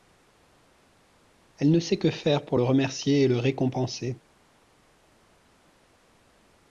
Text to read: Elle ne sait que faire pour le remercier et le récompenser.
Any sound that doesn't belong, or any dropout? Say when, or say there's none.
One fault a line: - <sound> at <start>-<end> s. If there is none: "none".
none